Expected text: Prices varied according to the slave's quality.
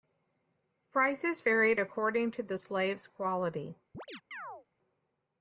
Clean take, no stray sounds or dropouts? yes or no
no